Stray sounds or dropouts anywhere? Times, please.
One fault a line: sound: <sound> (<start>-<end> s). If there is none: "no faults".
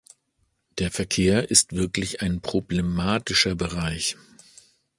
no faults